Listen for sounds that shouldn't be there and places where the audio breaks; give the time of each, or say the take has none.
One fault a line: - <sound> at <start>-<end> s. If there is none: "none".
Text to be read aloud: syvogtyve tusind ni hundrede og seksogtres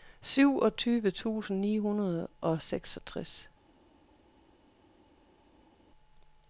none